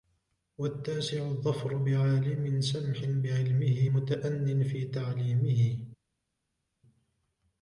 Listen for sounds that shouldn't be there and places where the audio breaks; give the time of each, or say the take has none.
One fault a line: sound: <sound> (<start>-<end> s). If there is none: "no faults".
no faults